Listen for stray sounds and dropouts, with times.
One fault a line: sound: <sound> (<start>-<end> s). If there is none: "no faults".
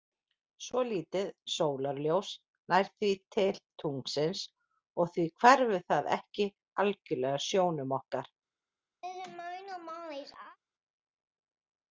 sound: laugh (9.0-10.6 s)